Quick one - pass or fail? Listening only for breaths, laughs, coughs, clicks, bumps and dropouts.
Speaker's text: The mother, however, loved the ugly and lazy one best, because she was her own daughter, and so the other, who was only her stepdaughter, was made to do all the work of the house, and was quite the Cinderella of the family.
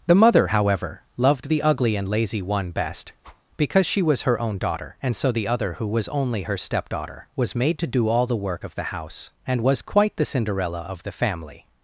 fail